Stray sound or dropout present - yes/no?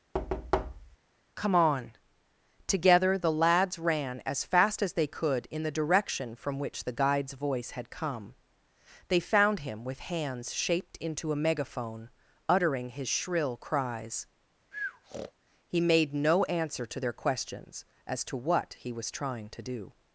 yes